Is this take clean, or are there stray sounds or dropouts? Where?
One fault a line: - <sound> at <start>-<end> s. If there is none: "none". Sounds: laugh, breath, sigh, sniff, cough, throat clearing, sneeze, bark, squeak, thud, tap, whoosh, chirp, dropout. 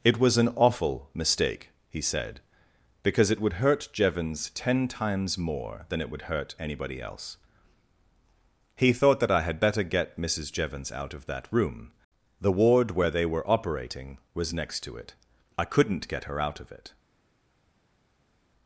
none